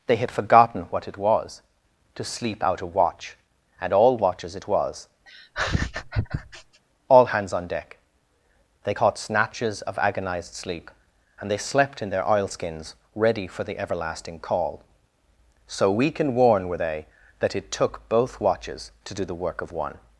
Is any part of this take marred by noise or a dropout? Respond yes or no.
yes